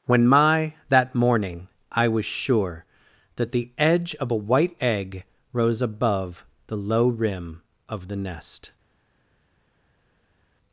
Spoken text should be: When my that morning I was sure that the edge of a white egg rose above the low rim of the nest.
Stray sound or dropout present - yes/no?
no